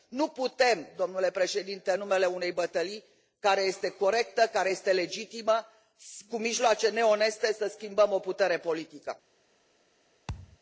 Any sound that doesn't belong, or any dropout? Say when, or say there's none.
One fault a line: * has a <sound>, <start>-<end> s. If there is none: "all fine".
* has a thud, 10.3-10.6 s